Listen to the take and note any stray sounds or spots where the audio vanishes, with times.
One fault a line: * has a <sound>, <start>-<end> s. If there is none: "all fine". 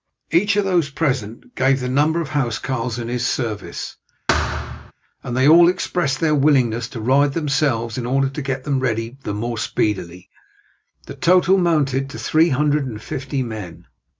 * has a thud, 4.3-4.9 s